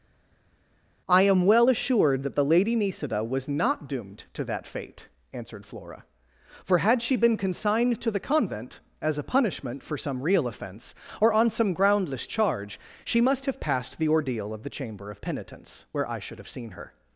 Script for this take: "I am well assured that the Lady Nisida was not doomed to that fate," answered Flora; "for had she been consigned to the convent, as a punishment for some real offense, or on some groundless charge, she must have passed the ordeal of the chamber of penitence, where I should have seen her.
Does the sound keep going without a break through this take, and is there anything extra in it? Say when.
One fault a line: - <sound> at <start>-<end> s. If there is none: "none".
none